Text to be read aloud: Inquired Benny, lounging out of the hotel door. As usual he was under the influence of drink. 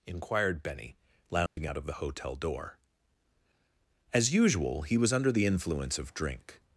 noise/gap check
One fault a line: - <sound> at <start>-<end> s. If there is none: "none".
- dropout at 1.5-1.6 s